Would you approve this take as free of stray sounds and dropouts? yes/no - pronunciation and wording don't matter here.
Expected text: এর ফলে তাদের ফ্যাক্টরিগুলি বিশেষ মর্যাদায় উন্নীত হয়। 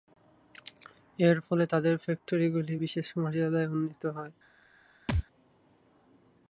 no